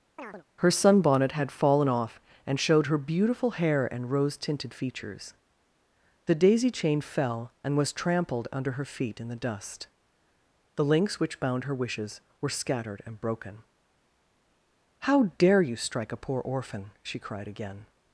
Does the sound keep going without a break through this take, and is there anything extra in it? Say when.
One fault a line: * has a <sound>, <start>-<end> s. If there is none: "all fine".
* has a chirp, 0.2-0.4 s